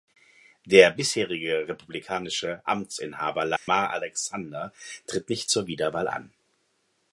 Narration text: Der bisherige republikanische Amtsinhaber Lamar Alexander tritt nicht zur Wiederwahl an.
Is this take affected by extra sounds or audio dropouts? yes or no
yes